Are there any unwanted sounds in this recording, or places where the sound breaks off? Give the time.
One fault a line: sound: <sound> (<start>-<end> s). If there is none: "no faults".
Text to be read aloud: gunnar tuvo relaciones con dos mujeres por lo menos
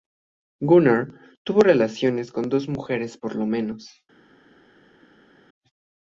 no faults